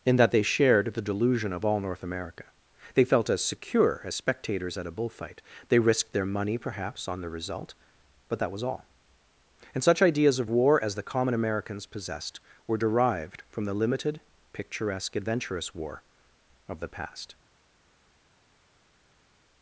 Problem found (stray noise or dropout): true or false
false